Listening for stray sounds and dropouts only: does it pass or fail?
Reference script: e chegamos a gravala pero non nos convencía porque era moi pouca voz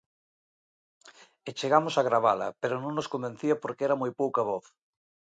pass